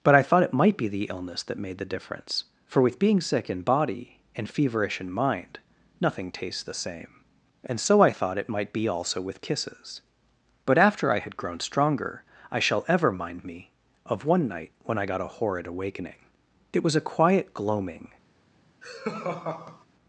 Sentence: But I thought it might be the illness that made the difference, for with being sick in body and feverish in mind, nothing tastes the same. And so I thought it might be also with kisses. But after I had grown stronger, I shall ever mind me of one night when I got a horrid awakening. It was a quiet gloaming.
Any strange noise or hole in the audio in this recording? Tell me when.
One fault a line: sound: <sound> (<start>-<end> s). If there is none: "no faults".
sound: laugh (18.8-19.8 s)